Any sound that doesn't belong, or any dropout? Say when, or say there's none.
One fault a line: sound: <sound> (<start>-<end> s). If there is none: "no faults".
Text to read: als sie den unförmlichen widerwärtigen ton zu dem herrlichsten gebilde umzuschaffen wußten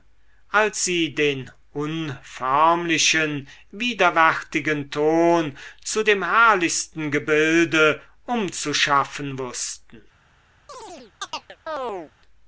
sound: chirp (10.7-12.1 s)